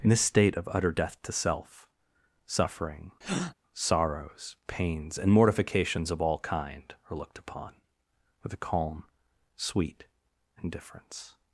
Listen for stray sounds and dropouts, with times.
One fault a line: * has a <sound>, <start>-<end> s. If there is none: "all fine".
* has a breath, 3.2-3.5 s